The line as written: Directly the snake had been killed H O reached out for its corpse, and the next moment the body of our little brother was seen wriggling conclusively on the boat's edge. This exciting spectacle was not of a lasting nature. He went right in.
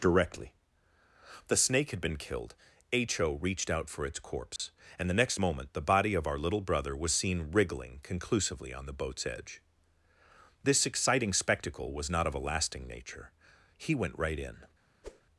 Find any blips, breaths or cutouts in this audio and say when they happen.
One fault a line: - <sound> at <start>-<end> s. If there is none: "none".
- dropout at 4.6-4.6 s
- whoosh at 15.0-15.2 s